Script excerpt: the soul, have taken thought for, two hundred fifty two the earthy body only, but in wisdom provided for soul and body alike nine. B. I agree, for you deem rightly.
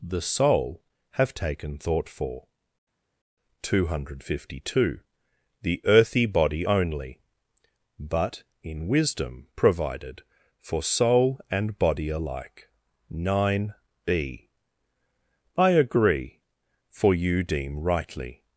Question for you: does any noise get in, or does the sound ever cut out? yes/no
no